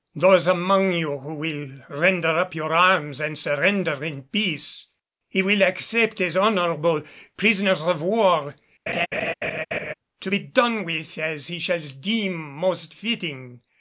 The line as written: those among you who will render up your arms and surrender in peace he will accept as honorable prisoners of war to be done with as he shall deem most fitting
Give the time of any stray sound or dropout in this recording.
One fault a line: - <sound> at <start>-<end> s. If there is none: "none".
- laugh at 8.9-9.9 s